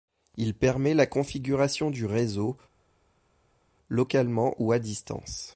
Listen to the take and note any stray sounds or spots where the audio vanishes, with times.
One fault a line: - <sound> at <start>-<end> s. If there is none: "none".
none